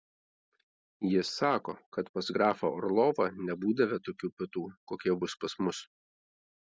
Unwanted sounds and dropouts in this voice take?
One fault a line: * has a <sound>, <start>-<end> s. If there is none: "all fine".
all fine